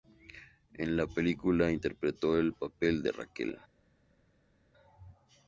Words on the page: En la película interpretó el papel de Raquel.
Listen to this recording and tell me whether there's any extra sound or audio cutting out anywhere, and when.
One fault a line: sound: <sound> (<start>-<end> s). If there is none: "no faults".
no faults